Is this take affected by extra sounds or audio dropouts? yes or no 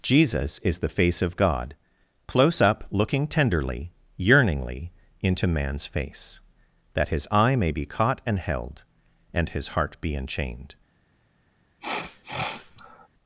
yes